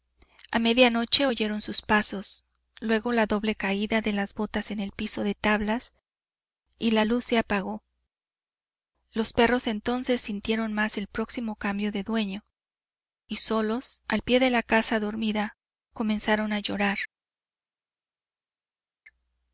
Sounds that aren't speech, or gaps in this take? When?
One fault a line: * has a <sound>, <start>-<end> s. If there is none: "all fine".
all fine